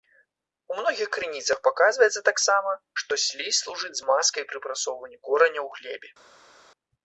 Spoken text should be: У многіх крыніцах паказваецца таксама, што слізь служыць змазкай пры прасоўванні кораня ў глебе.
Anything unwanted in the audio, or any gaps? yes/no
no